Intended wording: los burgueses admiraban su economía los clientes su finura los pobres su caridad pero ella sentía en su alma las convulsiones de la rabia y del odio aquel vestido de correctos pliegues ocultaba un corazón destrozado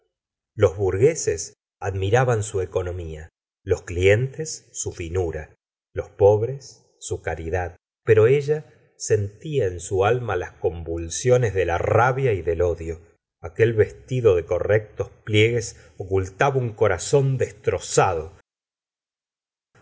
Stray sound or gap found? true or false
false